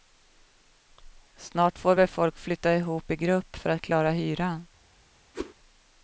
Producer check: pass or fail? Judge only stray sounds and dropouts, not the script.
fail